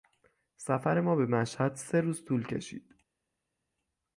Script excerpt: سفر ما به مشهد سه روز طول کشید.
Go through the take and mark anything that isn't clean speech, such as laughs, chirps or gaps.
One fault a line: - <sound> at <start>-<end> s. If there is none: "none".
none